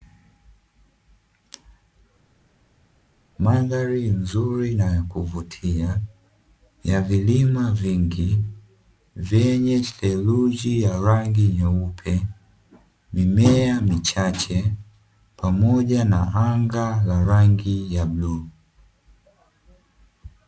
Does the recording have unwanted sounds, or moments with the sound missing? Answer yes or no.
no